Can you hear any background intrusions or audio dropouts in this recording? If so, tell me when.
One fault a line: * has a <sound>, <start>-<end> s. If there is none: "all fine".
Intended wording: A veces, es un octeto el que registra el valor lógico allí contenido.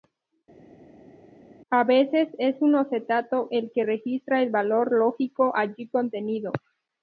all fine